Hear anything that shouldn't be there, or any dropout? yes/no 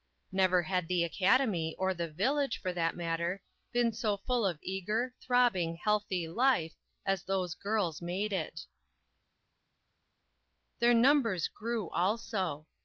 no